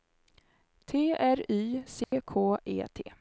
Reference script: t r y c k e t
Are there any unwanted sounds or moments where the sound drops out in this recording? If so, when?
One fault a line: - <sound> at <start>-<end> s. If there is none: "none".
- dropout at 2.0-2.1 s